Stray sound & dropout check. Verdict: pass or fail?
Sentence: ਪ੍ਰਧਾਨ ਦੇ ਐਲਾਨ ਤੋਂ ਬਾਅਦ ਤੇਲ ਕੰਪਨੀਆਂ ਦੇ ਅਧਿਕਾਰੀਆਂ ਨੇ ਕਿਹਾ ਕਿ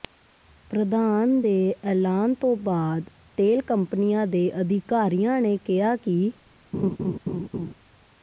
fail